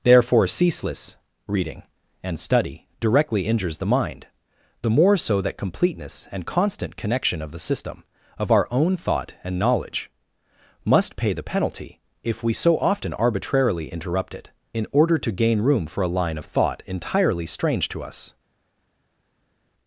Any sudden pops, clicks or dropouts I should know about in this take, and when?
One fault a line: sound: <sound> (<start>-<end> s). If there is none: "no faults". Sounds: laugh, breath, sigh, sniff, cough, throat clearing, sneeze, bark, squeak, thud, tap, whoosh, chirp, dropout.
no faults